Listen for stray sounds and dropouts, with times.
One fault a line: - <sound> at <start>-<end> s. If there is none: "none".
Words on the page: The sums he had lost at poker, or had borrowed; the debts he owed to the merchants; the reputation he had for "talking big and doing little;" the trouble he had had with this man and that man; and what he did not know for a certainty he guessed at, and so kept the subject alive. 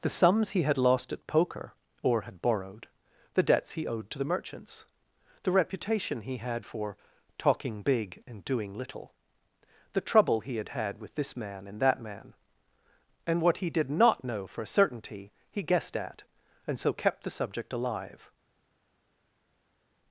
none